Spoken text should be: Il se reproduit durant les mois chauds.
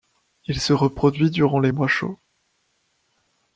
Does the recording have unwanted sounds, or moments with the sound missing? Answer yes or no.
no